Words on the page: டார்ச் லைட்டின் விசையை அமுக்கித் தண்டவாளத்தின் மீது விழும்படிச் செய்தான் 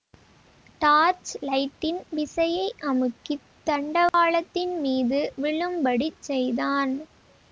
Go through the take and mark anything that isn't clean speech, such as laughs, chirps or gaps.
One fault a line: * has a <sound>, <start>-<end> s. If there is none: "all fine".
* has a dropout, 4.1-4.1 s